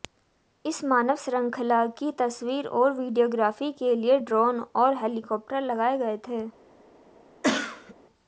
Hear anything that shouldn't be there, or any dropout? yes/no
yes